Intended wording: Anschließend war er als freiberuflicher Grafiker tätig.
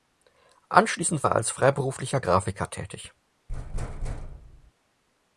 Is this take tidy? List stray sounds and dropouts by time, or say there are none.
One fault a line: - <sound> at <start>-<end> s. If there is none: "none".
- thud at 3.5-4.7 s